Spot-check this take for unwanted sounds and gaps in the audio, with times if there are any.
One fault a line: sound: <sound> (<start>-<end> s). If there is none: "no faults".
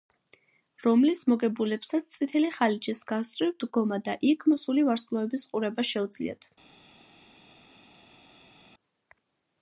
no faults